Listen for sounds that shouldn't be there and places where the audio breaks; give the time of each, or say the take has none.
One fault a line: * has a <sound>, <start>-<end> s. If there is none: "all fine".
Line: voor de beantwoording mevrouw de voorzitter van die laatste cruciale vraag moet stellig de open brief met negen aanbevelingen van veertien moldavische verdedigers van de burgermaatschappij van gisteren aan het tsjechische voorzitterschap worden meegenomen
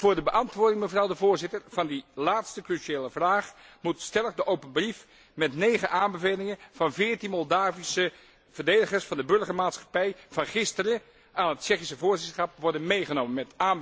all fine